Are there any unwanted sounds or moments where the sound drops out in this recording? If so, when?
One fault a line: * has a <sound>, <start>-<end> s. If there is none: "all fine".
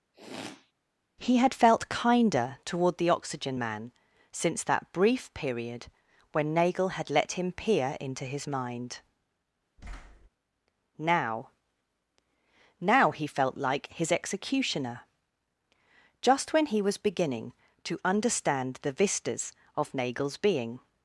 * has a sniff, 0.1-0.7 s
* has a thud, 9.8-10.3 s